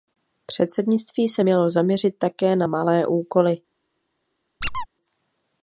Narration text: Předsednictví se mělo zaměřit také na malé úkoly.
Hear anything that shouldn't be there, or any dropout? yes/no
yes